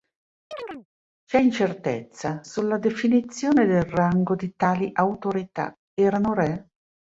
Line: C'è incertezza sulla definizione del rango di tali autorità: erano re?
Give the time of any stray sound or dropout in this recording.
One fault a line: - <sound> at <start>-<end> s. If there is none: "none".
- chirp at 0.5-0.9 s